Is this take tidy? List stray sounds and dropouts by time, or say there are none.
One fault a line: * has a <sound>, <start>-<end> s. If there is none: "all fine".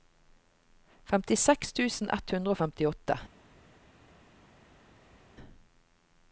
all fine